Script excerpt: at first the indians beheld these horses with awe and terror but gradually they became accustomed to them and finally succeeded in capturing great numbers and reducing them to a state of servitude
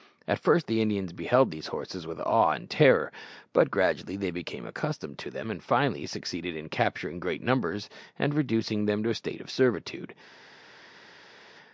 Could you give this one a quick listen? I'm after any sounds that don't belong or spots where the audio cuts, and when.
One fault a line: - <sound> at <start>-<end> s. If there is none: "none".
none